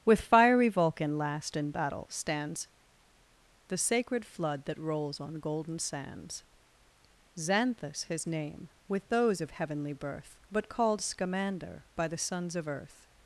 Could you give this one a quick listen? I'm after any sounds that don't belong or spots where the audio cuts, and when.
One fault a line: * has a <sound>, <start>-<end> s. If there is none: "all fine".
all fine